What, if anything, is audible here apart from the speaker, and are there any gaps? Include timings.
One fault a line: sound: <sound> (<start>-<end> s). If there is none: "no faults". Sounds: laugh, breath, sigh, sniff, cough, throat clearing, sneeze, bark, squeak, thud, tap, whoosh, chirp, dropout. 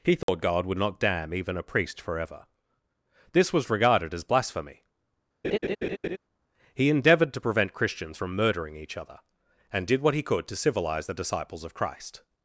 sound: dropout (0.2-0.3 s)
sound: laugh (5.4-6.2 s)